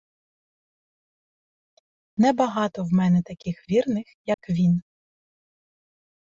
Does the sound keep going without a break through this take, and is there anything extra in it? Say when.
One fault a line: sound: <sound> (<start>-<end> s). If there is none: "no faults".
sound: dropout (4.3-4.4 s)